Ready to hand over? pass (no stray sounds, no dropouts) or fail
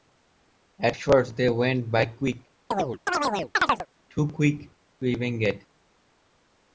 fail